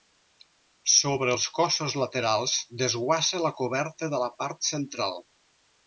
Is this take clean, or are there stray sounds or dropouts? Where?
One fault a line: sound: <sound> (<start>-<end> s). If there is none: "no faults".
no faults